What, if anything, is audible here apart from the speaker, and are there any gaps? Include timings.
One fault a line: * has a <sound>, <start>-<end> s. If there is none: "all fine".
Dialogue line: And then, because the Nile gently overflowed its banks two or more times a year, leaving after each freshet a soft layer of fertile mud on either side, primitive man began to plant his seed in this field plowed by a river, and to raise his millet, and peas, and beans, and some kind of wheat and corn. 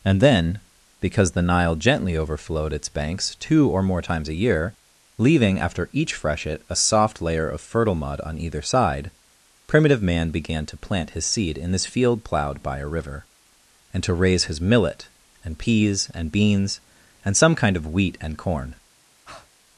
* has a breath, 19.3-19.5 s